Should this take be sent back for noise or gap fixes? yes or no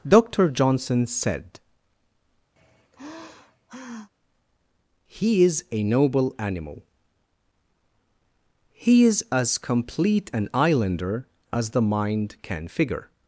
yes